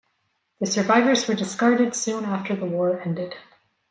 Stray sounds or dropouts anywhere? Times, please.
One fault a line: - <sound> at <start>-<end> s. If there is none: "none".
none